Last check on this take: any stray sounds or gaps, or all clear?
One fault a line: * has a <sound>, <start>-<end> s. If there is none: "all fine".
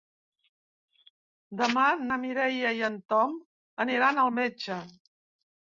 all fine